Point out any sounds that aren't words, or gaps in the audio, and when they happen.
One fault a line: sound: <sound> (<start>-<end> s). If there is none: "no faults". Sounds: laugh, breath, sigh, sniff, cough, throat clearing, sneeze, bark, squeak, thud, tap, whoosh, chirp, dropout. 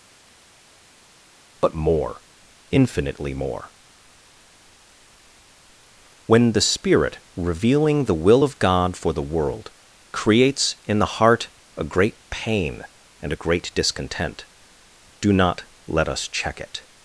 no faults